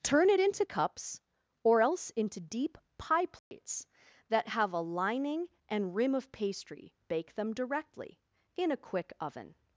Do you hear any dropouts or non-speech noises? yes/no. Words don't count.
yes